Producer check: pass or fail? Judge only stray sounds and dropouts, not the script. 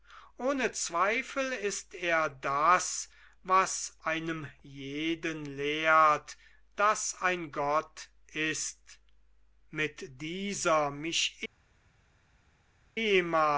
pass